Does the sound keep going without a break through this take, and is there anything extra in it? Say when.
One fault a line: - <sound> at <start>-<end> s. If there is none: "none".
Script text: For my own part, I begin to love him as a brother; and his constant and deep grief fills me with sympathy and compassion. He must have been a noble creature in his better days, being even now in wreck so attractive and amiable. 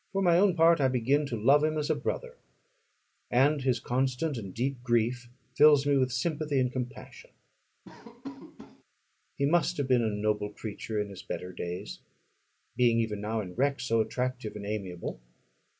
- laugh at 7.8-8.8 s